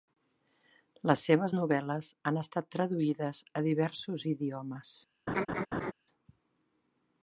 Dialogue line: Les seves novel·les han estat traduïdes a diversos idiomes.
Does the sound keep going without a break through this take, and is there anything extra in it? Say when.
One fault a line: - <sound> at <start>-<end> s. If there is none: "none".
- laugh at 5.3-5.9 s